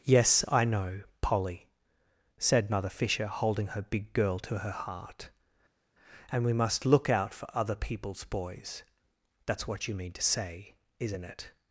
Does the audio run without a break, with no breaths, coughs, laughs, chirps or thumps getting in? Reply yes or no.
yes